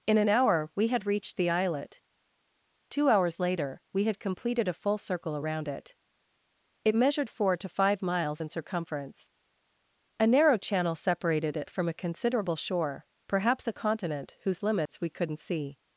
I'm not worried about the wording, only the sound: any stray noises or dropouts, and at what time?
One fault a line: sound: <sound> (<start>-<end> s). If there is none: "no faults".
sound: dropout (14.9-14.9 s)